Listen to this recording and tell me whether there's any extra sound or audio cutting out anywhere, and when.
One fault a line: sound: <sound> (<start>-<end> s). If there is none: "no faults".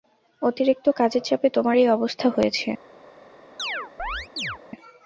sound: chirp (3.6-4.6 s)